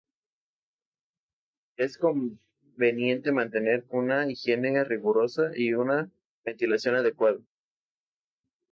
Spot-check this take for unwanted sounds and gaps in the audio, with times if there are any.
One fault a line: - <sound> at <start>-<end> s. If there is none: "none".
none